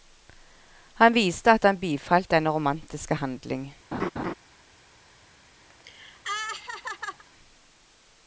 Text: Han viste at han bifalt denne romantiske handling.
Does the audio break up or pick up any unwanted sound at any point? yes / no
yes